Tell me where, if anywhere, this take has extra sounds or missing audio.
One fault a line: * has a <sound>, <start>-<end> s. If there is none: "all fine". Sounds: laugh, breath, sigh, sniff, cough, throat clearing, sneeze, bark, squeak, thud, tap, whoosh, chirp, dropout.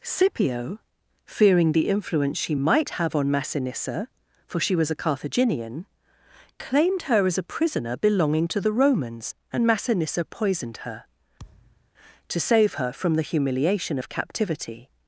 * has a thud, 11.4-11.9 s